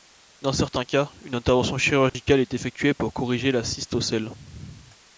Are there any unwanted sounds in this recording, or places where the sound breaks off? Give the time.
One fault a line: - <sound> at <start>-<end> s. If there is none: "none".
- dropout at 2.1-2.1 s